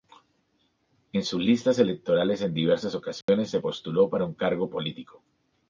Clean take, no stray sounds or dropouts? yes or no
no